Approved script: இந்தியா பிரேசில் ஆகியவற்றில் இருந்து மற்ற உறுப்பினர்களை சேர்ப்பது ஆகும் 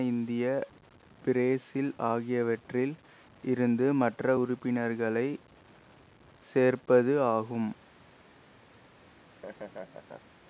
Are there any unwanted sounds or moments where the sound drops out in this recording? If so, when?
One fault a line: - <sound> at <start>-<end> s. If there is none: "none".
- laugh at 9.0-10.4 s